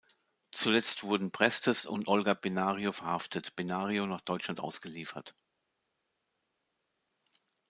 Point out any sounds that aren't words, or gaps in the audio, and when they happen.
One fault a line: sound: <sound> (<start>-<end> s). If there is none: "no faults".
no faults